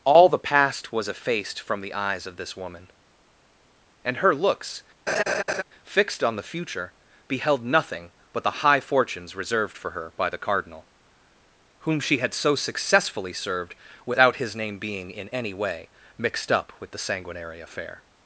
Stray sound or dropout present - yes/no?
yes